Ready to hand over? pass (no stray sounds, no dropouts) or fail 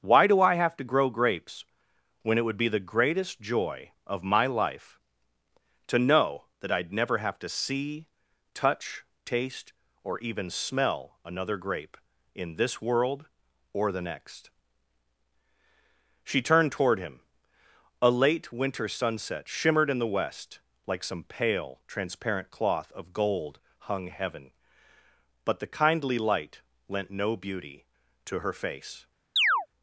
fail